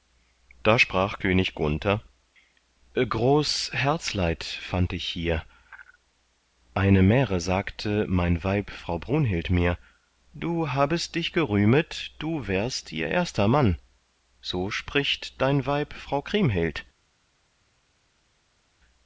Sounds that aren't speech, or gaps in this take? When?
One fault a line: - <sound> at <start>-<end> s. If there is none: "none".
none